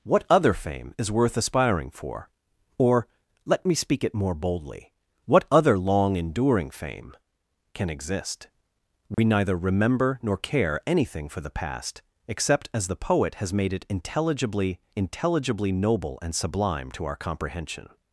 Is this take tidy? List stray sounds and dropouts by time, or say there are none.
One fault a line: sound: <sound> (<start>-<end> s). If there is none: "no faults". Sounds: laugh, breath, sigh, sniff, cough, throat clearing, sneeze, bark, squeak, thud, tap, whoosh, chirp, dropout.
sound: dropout (9.1-9.2 s)